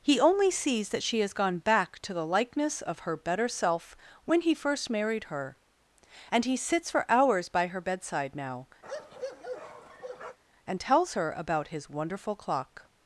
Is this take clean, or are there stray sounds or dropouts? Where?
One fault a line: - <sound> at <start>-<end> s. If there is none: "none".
- bark at 8.8-10.4 s